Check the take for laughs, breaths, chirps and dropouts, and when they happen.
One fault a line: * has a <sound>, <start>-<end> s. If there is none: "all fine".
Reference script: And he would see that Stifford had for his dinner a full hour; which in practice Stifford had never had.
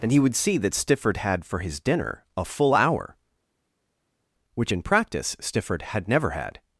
all fine